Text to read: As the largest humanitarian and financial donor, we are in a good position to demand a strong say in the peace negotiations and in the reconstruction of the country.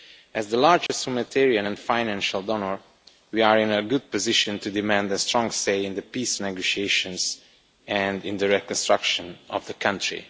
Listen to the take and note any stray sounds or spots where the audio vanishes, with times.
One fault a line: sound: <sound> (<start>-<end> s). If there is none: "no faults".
sound: dropout (0.9-0.9 s)